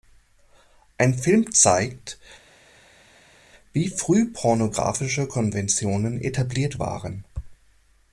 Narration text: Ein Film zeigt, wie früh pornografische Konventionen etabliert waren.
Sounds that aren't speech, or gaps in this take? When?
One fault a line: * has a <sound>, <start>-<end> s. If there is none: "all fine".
all fine